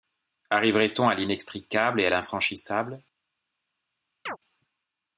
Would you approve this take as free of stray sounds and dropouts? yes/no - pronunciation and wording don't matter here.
no